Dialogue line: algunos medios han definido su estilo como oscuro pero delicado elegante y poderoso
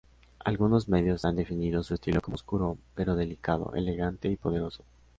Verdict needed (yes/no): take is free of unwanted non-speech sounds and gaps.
yes